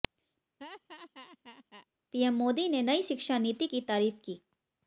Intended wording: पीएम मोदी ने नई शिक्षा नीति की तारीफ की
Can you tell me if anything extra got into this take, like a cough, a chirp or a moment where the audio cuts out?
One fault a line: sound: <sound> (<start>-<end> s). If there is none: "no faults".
sound: laugh (0.6-1.9 s)